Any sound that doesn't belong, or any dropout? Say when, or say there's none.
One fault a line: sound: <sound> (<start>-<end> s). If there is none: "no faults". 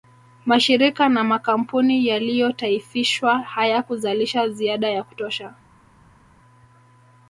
no faults